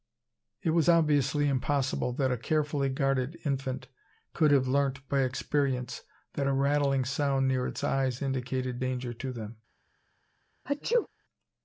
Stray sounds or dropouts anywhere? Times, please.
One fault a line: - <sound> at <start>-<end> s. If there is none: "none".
- sneeze at 10.7-11.1 s